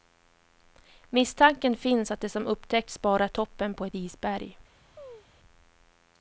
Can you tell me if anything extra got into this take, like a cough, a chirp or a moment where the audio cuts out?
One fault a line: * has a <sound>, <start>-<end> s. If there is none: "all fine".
* has a chirp, 5.0-5.3 s